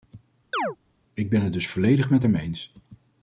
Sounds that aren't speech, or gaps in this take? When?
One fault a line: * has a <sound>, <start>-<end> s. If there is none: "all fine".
* has a chirp, 0.5-0.8 s